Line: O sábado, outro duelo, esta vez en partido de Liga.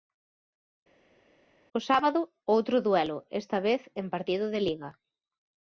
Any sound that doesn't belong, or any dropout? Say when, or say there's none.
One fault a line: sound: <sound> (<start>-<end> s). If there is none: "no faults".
no faults